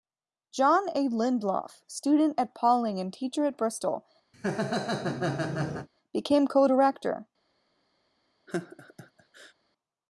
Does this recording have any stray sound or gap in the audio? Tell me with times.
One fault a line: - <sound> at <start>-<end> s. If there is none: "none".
- laugh at 4.3-5.9 s
- laugh at 8.5-9.5 s